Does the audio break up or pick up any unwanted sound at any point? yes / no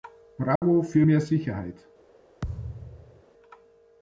yes